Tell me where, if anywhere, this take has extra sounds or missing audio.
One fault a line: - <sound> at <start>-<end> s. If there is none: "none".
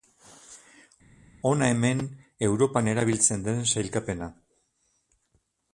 none